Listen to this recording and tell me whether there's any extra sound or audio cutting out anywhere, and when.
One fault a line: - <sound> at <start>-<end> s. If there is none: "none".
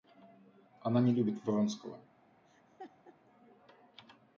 - laugh at 2.4-3.2 s